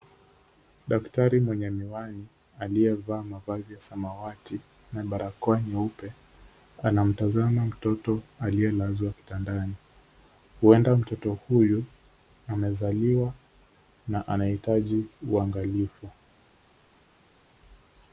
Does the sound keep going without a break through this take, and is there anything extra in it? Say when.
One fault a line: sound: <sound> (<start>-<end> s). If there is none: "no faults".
no faults